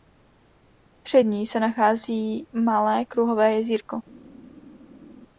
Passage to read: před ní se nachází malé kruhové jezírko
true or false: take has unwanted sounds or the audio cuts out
false